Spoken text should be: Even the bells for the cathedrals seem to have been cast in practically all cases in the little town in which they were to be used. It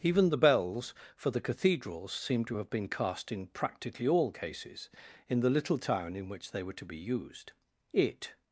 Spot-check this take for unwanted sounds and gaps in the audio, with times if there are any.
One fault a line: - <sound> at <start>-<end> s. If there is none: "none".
none